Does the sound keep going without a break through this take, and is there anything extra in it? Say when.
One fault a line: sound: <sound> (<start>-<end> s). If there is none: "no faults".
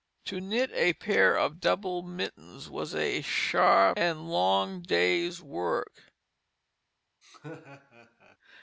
sound: laugh (7.2-8.4 s)